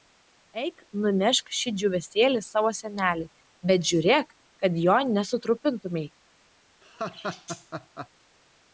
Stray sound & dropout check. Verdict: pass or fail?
fail